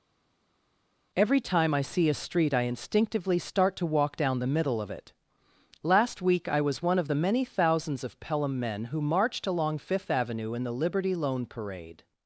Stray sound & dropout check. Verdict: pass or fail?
pass